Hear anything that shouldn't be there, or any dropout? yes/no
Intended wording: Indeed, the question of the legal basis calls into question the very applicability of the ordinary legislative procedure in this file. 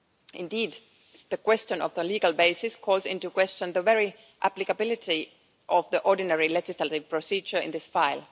no